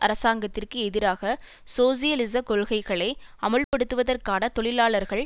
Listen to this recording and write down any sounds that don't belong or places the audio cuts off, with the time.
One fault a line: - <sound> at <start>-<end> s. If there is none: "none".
- dropout at 3.6-3.7 s